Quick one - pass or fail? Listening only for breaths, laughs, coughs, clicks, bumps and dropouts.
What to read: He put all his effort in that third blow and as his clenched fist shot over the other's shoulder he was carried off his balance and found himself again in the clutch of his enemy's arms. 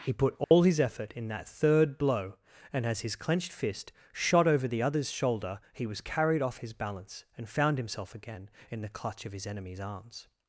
fail